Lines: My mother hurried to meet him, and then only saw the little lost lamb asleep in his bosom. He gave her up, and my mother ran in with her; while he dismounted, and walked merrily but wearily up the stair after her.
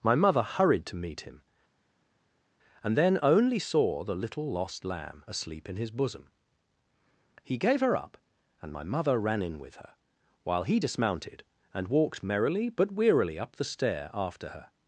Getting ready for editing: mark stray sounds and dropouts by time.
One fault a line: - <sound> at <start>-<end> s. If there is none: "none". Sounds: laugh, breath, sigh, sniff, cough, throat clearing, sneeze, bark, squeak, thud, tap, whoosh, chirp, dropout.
none